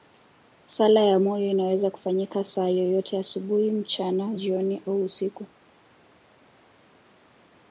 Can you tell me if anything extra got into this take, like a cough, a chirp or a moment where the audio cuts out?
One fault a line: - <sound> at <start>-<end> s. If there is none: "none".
none